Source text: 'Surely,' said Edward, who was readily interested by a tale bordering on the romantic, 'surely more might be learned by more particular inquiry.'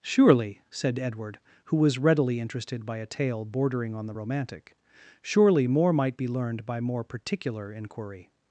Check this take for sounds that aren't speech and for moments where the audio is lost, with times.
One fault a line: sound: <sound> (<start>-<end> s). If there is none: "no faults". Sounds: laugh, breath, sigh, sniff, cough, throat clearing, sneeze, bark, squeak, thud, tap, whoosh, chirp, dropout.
no faults